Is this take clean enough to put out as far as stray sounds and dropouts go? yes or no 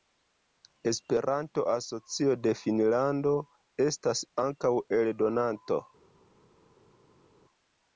yes